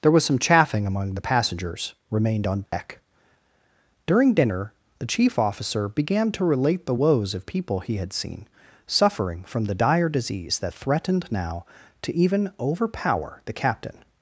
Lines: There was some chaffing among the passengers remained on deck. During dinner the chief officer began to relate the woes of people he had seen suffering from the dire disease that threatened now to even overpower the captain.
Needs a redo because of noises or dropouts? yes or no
yes